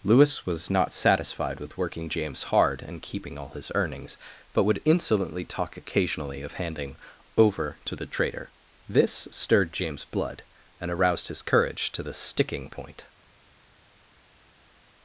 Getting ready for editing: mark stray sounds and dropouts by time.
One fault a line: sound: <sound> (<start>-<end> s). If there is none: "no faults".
no faults